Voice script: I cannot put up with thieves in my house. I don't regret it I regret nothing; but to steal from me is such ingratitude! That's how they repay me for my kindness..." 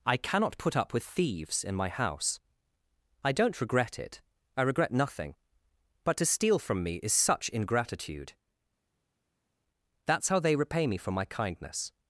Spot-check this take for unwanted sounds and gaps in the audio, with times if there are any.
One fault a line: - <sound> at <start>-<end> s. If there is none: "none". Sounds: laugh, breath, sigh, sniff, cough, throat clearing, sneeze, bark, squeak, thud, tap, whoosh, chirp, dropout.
none